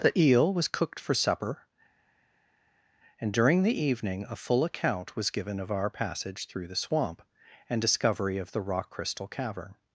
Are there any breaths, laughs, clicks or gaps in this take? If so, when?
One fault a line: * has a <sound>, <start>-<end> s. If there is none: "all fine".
all fine